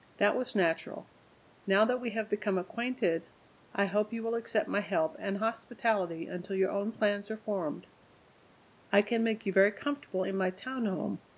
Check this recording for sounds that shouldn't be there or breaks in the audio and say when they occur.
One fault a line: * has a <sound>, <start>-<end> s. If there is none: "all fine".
all fine